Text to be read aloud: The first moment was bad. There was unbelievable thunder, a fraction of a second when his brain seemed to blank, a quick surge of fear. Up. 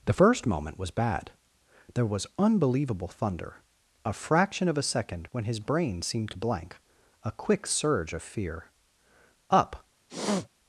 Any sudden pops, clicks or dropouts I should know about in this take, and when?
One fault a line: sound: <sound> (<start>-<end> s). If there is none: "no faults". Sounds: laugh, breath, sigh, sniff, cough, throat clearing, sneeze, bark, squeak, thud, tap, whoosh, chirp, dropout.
sound: sniff (10.1-10.5 s)